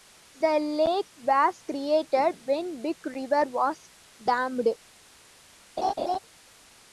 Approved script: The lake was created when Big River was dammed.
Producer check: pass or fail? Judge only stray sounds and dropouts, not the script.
fail